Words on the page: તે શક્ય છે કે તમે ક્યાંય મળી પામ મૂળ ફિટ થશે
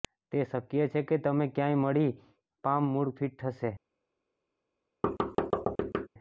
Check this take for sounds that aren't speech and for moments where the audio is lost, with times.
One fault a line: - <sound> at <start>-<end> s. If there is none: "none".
- thud at 5.0-6.1 s